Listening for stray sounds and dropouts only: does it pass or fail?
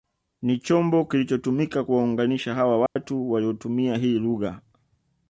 fail